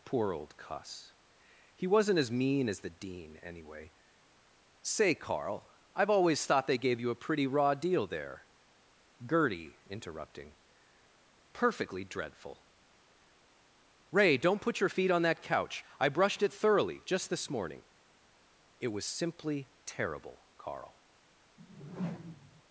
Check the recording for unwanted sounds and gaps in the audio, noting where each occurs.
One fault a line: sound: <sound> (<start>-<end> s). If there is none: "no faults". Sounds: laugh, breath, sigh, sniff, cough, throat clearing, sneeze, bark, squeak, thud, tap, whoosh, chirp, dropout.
sound: whoosh (21.6-22.6 s)